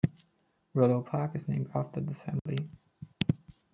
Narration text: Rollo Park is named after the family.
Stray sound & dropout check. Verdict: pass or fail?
fail